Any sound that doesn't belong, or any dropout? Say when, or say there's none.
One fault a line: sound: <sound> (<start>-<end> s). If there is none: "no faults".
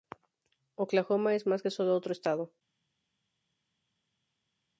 no faults